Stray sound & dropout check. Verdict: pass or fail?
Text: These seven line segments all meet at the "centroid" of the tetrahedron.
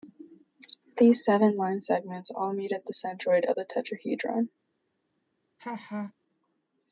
fail